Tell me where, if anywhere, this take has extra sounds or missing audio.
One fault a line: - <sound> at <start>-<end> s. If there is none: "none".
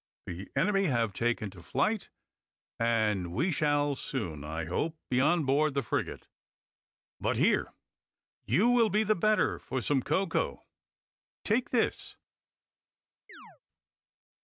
- chirp at 13.3-13.6 s